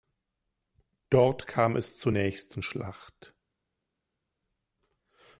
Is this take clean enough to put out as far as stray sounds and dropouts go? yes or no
yes